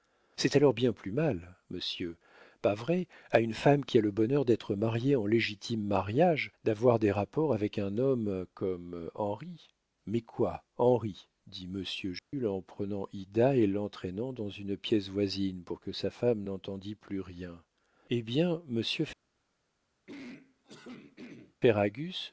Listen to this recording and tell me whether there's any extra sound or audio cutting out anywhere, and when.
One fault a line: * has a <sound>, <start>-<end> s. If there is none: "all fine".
* has a dropout, 12.2-12.3 s
* has a throat clearing, 20.1-21.6 s